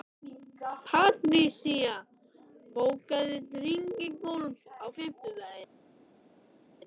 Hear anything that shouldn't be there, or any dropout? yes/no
no